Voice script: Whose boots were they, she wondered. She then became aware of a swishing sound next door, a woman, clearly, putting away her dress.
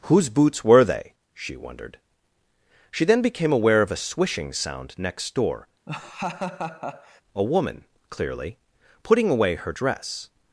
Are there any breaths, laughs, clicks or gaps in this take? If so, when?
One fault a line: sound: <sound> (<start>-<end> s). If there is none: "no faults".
sound: laugh (5.9-7.2 s)